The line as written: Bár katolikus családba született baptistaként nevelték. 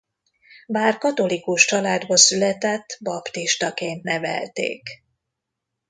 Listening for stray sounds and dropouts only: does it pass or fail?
pass